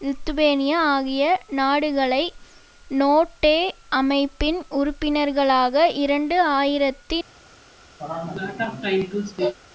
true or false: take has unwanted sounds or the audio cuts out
true